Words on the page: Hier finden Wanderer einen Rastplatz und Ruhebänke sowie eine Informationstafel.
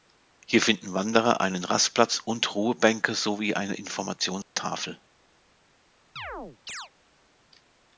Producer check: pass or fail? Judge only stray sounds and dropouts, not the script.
fail